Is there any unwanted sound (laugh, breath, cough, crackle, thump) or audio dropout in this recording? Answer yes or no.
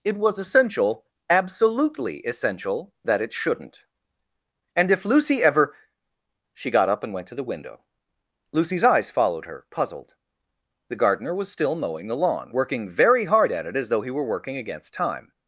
no